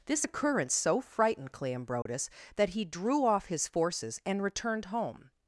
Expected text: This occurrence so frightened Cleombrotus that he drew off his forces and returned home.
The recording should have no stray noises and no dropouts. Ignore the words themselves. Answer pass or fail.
fail